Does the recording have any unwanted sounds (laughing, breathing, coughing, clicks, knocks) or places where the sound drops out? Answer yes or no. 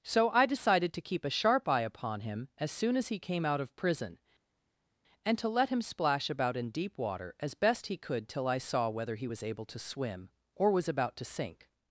no